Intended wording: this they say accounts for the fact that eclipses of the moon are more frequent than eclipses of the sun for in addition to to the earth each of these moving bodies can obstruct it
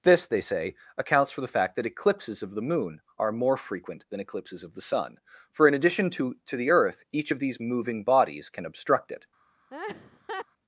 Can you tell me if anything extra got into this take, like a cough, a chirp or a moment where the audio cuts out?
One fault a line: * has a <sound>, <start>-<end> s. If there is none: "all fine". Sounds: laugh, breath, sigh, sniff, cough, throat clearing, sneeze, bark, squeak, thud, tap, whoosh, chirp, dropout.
* has a laugh, 9.7-10.5 s